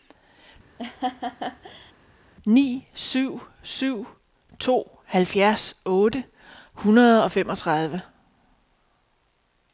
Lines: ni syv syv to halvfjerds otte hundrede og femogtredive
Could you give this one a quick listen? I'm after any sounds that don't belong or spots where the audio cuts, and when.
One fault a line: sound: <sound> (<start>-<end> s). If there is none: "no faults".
sound: laugh (0.8-1.9 s)